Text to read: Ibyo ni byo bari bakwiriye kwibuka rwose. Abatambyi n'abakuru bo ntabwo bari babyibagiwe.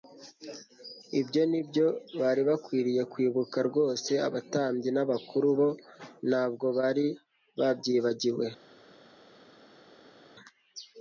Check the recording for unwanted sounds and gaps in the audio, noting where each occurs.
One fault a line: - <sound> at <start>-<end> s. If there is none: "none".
none